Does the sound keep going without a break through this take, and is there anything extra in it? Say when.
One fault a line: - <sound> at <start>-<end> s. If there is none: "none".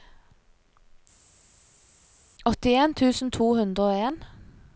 none